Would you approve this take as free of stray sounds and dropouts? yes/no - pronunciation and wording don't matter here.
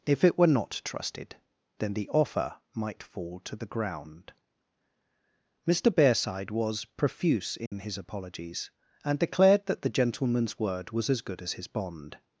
no